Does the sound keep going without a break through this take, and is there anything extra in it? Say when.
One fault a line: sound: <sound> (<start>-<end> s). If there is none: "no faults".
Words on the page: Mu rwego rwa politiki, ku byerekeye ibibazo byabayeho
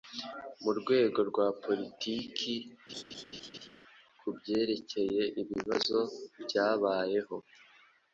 sound: laugh (2.9-3.7 s)